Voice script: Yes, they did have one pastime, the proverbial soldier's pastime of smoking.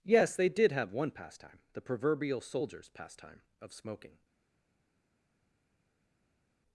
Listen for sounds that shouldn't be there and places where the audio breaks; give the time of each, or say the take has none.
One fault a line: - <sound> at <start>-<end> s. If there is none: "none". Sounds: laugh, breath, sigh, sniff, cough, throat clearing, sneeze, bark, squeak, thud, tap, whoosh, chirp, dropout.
none